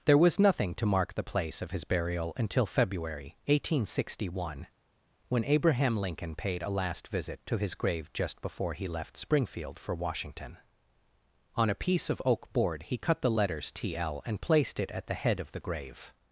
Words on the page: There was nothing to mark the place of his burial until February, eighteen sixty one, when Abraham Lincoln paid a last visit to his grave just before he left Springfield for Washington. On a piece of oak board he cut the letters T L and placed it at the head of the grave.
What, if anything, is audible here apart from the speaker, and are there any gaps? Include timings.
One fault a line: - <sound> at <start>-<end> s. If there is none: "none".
none